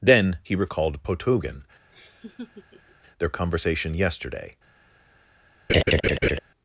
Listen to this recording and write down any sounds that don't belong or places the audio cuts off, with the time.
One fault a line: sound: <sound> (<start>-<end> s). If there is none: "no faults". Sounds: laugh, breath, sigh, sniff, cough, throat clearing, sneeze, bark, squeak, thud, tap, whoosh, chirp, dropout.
sound: laugh (1.9-3.0 s)
sound: laugh (5.7-6.4 s)